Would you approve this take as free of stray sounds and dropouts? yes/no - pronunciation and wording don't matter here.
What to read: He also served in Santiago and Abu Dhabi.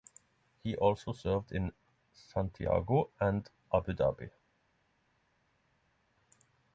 yes